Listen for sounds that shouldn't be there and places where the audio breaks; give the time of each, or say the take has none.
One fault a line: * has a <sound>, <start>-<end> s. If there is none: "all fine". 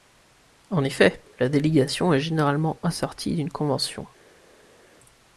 all fine